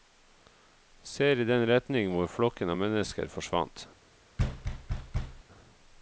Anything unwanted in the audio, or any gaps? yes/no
yes